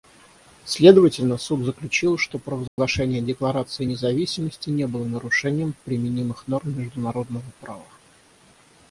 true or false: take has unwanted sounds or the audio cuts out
true